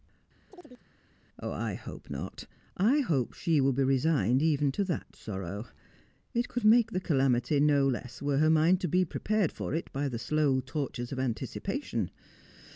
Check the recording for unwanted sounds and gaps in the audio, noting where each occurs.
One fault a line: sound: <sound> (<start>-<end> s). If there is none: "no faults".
sound: chirp (0.5-0.9 s)